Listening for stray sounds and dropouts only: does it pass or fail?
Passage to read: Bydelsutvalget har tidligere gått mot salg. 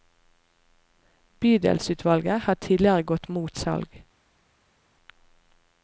pass